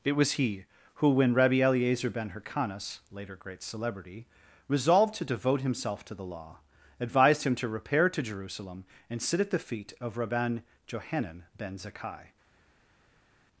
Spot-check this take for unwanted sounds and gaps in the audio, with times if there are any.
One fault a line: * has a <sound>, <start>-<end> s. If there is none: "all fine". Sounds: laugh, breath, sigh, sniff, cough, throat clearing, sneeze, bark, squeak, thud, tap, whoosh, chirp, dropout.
all fine